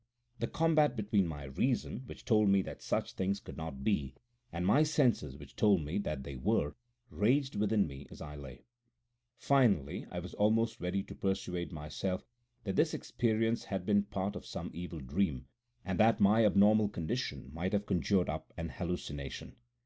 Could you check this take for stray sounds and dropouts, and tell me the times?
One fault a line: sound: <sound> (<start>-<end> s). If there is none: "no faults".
no faults